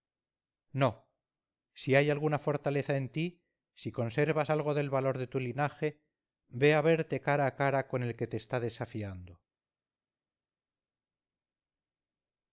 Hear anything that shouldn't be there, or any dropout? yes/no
no